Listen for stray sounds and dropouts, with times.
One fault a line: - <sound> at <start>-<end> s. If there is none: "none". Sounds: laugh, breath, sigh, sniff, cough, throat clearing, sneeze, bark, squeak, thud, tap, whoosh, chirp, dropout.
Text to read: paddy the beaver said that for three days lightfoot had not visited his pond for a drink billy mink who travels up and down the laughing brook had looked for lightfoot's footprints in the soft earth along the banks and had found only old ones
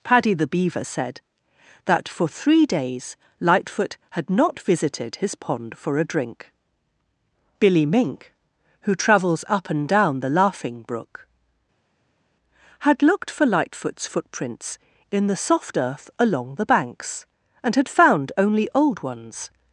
none